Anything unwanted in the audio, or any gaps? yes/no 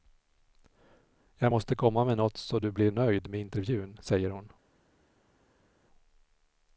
no